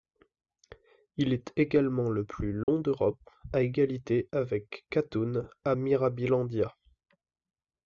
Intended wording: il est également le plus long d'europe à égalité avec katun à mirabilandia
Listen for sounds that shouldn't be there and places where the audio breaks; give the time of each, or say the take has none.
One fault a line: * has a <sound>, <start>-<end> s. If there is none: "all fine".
* has a dropout, 2.6-2.7 s